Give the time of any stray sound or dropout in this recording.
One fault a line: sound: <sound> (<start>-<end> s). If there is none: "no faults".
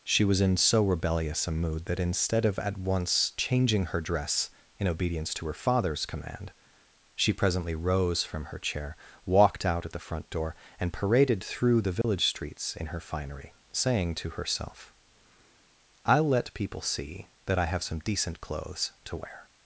sound: dropout (12.0-12.0 s)